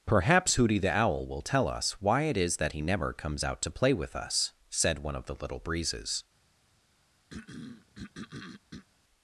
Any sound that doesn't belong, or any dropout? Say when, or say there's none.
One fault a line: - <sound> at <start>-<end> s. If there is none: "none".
- throat clearing at 7.3-8.9 s